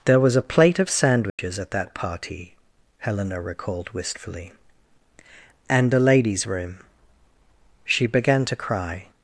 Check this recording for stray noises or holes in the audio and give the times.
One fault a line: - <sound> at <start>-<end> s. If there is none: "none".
- dropout at 1.3-1.4 s